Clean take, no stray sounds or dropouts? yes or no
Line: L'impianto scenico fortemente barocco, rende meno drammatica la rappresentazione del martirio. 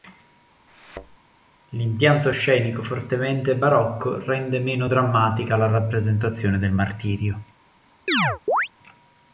no